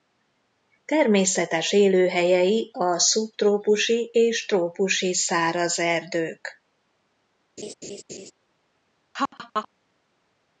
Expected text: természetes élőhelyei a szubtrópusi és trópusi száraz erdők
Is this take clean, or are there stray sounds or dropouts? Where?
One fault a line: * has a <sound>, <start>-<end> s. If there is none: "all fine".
* has a laugh, 7.6-8.3 s
* has a laugh, 9.1-9.7 s